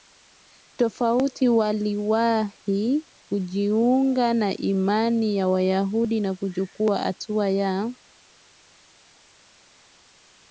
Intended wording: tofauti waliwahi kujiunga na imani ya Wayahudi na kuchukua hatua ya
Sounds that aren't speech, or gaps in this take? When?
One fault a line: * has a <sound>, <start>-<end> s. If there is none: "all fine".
all fine